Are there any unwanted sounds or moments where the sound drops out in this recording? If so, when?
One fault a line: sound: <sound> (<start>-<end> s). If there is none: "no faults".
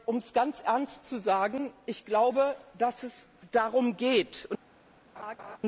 sound: laugh (5.2-5.6 s)